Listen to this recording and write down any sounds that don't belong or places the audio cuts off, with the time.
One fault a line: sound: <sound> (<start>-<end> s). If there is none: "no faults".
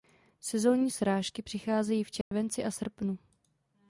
sound: dropout (2.2-2.3 s)